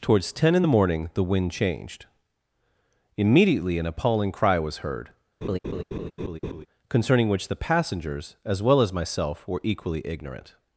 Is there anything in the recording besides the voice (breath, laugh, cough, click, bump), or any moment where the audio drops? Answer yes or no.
yes